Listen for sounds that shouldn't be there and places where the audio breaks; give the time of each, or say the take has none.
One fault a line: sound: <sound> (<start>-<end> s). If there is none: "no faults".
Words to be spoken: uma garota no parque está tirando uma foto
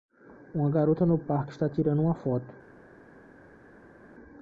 no faults